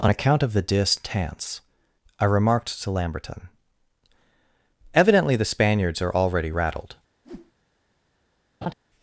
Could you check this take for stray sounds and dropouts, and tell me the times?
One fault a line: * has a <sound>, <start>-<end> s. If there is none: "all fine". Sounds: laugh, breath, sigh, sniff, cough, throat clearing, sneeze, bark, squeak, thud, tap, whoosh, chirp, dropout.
* has a whoosh, 7.2-7.5 s
* has a laugh, 8.6-8.7 s